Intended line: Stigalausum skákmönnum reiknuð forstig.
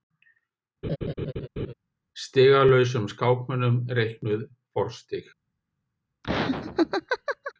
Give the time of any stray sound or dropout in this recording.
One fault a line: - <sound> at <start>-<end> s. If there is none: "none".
- laugh at 0.8-1.7 s
- laugh at 6.2-7.5 s